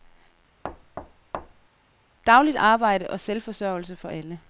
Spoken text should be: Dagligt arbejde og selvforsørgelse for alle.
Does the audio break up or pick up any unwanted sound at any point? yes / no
yes